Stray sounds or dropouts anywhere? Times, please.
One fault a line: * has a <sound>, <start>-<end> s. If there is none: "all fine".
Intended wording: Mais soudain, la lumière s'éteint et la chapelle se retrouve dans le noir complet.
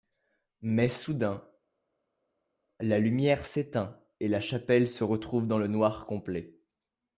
all fine